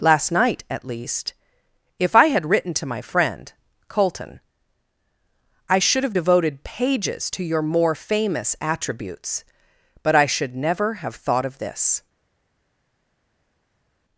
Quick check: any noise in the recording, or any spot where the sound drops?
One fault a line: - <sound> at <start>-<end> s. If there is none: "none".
none